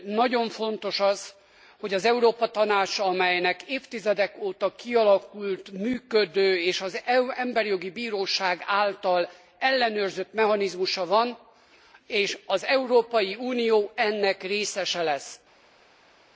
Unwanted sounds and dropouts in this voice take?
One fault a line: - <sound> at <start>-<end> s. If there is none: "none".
none